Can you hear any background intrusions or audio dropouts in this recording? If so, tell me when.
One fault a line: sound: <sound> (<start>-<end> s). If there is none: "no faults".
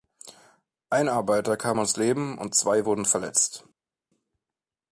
no faults